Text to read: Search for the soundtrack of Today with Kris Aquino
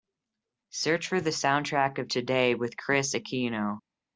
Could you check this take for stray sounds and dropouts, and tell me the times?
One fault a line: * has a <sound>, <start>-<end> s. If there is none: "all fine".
all fine